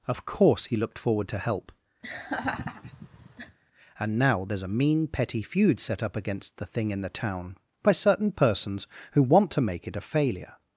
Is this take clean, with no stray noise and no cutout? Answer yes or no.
no